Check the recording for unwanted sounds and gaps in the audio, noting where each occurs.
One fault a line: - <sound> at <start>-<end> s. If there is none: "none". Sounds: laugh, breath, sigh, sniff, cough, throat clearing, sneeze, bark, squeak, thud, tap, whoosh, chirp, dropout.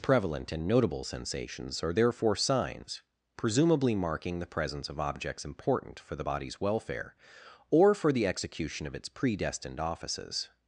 none